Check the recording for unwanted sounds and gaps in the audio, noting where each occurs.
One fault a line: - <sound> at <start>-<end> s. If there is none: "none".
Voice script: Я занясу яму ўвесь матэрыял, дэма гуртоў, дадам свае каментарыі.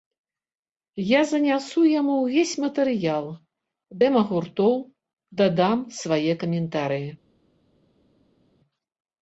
none